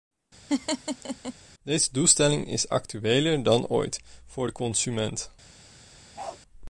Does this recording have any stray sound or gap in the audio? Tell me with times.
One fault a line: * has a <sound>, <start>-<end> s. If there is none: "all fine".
* has a laugh, 0.5-1.3 s
* has a bark, 6.2-6.4 s